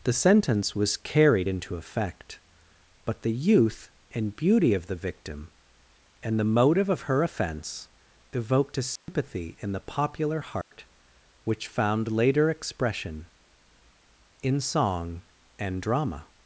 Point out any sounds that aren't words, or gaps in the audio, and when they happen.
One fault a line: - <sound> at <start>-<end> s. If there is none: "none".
- dropout at 9.0-9.1 s
- dropout at 10.6-10.7 s